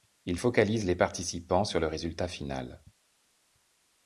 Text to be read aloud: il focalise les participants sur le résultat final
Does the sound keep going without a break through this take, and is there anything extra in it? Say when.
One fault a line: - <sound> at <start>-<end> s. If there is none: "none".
none